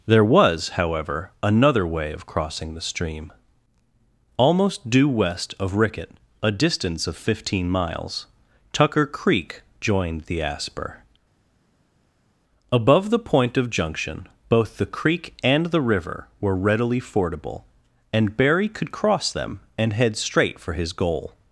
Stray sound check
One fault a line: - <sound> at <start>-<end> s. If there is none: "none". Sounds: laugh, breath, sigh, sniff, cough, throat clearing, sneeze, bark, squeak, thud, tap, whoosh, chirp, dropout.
none